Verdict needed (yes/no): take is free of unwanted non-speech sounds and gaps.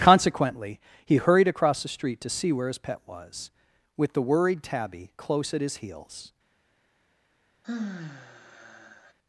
no